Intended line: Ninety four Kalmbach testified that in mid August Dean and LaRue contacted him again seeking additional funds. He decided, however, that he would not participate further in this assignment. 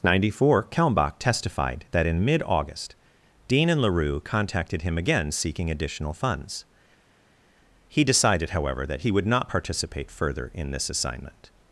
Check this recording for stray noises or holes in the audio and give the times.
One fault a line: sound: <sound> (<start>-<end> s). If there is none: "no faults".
no faults